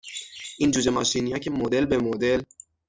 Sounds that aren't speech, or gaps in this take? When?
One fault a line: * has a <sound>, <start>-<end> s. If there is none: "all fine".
all fine